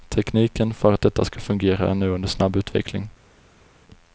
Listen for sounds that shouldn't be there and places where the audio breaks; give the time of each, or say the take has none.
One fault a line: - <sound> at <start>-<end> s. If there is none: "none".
none